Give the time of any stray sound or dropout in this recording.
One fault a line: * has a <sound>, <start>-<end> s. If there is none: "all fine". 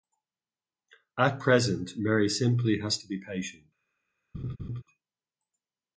* has a laugh, 4.3-4.8 s